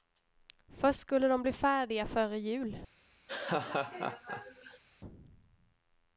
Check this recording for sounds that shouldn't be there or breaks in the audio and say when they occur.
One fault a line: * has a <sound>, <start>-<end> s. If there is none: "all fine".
* has a laugh, 3.3-4.8 s